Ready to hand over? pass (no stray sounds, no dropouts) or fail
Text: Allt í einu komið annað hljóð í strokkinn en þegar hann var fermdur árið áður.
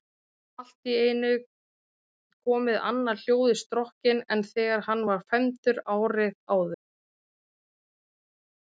pass